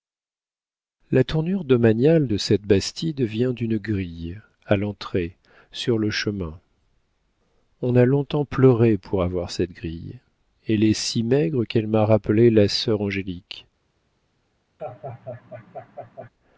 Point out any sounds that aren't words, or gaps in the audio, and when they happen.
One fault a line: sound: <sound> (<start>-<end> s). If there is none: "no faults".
sound: laugh (14.8-16.3 s)